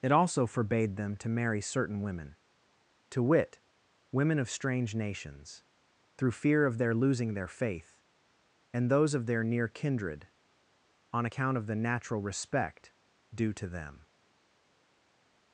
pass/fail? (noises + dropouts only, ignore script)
pass